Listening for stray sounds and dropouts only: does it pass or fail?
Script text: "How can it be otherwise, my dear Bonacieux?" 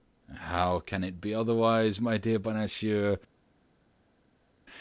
pass